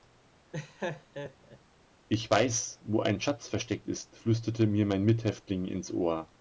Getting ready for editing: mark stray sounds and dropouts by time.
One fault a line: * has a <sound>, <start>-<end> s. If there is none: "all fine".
* has a laugh, 0.5-1.6 s